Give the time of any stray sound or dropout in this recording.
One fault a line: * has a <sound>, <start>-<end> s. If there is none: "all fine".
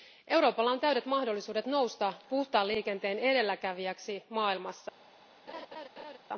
* has a laugh, 5.5-6.2 s